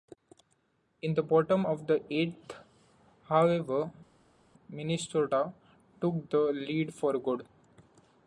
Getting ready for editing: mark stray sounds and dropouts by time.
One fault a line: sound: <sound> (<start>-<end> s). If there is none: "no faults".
no faults